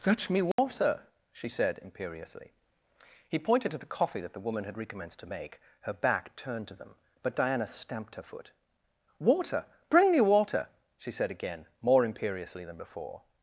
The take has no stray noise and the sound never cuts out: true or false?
false